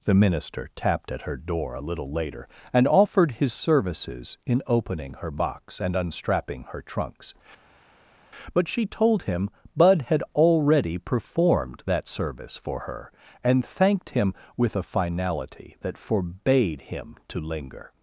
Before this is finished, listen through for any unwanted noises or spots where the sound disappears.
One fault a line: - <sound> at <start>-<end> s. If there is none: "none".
none